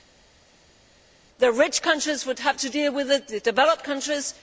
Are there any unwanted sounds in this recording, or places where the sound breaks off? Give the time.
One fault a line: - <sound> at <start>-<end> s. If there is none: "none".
none